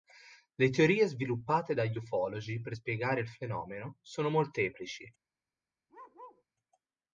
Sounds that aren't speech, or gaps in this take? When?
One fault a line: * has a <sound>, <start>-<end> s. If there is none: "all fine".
* has a bark, 5.9-6.4 s